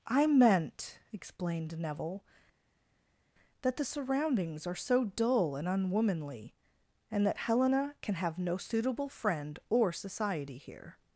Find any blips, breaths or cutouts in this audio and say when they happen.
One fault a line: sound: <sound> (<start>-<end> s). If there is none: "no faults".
no faults